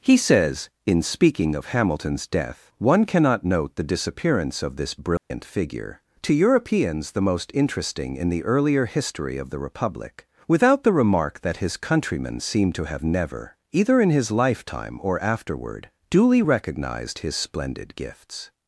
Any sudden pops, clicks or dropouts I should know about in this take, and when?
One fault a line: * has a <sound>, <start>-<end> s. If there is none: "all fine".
* has a dropout, 5.2-5.3 s